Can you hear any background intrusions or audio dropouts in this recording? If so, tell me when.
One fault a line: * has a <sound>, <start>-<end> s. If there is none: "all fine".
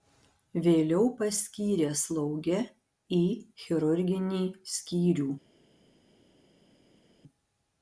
all fine